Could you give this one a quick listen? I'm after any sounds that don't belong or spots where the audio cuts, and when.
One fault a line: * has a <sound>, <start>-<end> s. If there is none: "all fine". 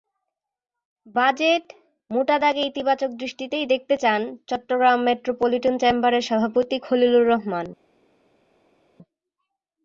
all fine